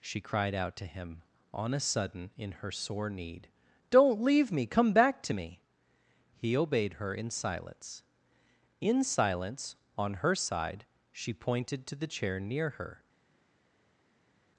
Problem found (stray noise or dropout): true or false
false